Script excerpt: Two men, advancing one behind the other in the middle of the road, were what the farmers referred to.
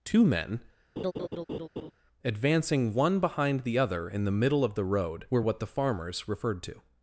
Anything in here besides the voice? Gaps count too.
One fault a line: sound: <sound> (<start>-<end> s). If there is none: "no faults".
sound: laugh (1.0-1.9 s)